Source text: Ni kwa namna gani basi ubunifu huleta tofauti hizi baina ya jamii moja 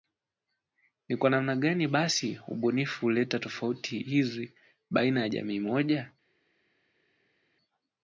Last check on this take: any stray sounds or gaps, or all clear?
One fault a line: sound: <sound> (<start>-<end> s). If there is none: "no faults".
no faults